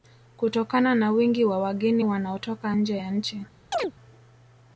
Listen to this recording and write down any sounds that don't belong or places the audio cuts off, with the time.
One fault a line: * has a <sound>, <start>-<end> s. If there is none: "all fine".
* has a chirp, 3.7-3.9 s